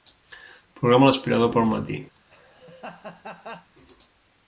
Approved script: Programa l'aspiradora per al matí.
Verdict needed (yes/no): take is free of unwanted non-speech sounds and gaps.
no